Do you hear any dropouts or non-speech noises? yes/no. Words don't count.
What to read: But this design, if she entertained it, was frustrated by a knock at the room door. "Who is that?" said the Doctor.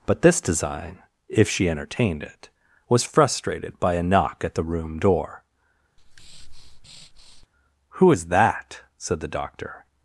yes